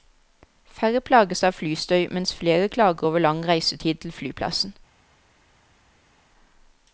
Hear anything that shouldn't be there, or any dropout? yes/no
no